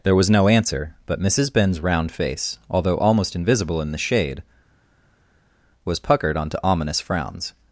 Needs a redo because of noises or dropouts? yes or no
no